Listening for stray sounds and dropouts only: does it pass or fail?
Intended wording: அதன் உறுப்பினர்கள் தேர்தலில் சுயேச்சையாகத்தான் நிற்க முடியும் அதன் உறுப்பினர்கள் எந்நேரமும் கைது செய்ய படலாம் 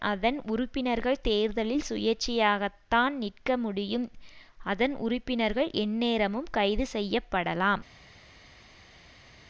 pass